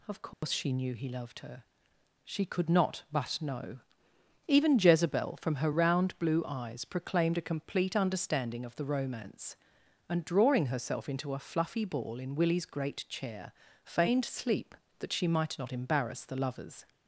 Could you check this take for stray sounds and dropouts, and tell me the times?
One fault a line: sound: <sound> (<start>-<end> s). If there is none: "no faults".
sound: dropout (0.3-0.4 s)